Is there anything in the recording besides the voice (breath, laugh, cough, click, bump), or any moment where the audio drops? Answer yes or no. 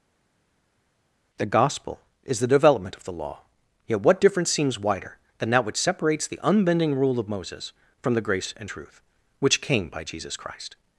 no